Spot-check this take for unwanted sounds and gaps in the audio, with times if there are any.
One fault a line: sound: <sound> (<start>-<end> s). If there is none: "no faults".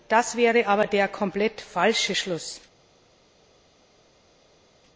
no faults